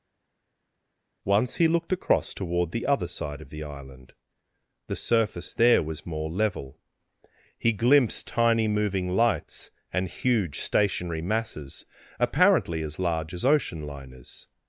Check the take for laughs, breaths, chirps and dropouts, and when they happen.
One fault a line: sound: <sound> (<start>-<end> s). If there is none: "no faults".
no faults